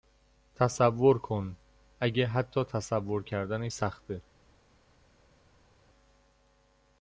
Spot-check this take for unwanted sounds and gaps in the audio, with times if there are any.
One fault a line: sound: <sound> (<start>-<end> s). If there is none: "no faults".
no faults